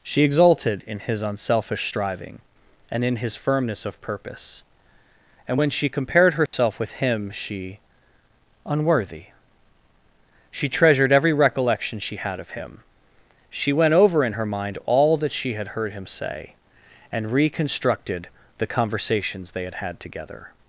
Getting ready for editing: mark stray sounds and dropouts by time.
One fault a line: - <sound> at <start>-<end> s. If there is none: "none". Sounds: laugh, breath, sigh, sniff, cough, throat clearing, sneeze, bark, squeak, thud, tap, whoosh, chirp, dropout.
- dropout at 6.5-6.5 s